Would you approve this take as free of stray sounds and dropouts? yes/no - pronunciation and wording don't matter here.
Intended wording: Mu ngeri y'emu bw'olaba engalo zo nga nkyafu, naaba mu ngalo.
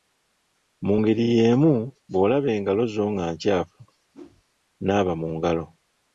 no